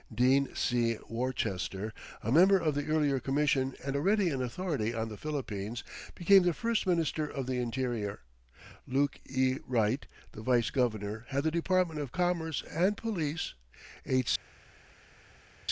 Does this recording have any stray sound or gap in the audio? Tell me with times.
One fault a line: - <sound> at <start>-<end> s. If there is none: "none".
none